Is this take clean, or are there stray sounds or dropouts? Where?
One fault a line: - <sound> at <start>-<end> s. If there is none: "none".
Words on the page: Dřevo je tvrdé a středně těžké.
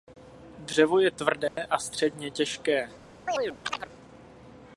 - dropout at 1.5-1.6 s
- chirp at 3.3-3.9 s